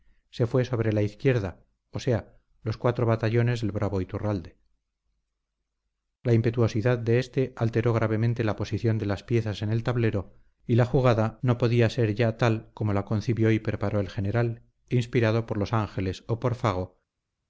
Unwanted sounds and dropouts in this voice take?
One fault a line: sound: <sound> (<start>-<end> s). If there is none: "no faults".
no faults